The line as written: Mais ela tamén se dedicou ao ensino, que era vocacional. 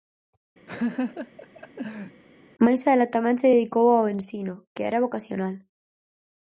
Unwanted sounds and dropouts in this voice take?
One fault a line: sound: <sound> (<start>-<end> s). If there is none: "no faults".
sound: laugh (0.7-2.2 s)